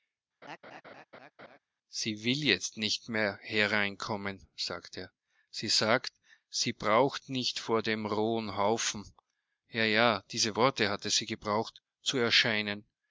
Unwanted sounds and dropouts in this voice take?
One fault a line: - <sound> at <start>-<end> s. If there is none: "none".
- laugh at 0.4-1.6 s